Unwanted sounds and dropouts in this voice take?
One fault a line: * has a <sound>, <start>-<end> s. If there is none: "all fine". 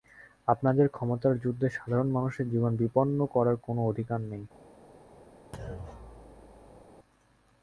* has a thud, 5.5-6.8 s